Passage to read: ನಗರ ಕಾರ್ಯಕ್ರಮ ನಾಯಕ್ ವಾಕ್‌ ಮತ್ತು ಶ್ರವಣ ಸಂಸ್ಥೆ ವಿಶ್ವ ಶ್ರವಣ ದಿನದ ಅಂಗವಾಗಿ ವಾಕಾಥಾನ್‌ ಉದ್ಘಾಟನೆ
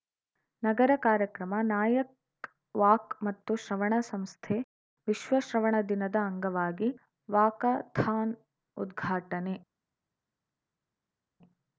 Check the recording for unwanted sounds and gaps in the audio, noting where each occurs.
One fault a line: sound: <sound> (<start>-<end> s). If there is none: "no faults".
no faults